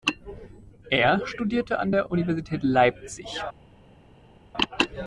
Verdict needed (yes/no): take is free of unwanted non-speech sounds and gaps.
yes